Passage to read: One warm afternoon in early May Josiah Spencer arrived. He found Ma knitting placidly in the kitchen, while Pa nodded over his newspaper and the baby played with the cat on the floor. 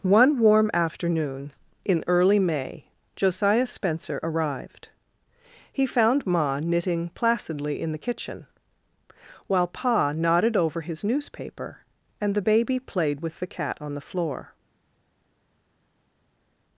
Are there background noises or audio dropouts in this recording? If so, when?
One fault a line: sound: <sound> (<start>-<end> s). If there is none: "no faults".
no faults